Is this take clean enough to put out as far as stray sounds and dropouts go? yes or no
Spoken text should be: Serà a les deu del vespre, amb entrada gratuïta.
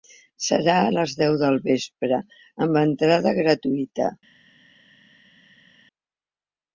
yes